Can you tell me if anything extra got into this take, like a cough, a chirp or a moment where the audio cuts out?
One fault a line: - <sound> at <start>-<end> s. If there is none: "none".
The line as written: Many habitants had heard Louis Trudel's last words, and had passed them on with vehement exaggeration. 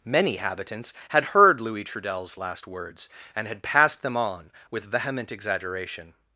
none